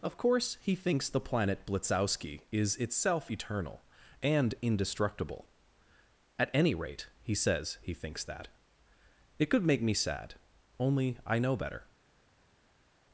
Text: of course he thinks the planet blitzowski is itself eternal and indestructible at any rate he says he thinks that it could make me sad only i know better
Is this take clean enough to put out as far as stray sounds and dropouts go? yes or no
yes